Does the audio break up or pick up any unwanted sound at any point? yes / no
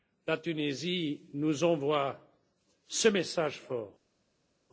no